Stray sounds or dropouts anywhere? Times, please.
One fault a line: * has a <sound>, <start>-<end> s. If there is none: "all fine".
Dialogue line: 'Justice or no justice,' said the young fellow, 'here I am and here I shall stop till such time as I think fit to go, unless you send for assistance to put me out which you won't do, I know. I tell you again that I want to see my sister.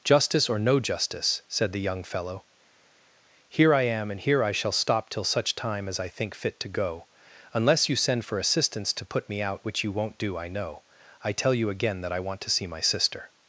all fine